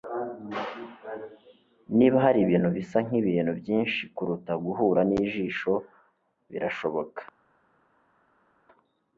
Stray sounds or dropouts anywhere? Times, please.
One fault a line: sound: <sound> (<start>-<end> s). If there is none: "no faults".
no faults